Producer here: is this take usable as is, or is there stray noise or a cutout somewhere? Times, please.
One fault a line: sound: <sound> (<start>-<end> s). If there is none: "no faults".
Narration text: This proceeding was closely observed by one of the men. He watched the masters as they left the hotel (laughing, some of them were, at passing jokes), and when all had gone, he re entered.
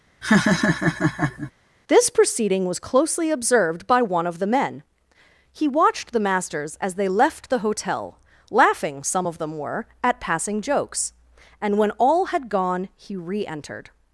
sound: laugh (0.2-1.5 s)